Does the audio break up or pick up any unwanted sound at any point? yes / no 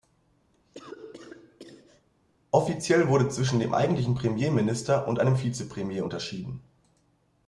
yes